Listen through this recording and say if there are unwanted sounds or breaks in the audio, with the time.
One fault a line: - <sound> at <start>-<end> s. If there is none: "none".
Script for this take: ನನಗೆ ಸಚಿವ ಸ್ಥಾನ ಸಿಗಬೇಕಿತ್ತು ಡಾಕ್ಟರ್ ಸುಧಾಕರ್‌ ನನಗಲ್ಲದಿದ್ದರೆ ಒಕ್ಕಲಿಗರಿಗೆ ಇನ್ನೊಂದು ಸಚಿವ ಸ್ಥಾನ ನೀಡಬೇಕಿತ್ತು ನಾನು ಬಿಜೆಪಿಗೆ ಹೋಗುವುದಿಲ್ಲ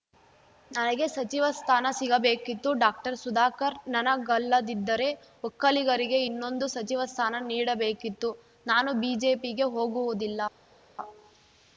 none